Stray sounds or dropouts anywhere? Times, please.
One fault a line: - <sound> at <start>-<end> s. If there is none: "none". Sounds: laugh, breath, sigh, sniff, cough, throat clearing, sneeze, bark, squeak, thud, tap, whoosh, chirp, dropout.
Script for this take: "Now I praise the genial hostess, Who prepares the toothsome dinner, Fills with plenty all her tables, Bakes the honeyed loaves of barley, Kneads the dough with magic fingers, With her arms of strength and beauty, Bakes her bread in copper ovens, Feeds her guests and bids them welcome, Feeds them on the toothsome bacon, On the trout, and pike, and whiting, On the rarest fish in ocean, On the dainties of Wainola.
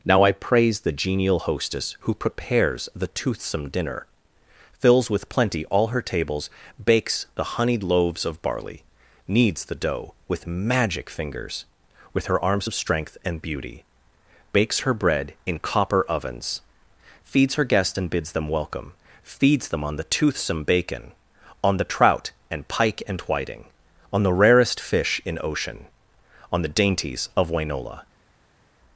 none